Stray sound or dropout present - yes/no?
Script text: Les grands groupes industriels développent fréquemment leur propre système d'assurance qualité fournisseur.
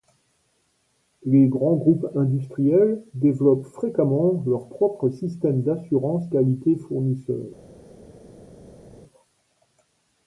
no